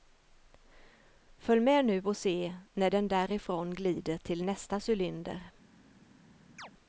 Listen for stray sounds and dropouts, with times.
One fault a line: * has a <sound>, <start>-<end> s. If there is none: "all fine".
* has a chirp, 6.6-6.7 s